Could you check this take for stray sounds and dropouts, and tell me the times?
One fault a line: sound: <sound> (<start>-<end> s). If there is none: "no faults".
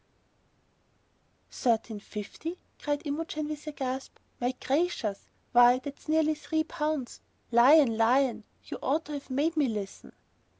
no faults